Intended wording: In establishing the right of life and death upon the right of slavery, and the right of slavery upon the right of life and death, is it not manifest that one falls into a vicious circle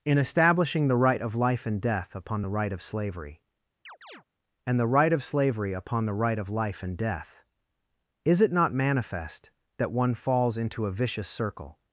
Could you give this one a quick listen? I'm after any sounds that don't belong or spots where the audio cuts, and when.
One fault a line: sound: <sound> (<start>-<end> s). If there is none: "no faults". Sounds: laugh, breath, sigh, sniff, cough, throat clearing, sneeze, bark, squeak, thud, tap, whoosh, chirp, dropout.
sound: chirp (3.9-4.2 s)